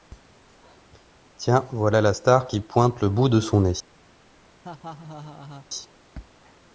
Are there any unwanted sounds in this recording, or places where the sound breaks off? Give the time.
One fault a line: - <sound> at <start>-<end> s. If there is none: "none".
- laugh at 4.6-5.7 s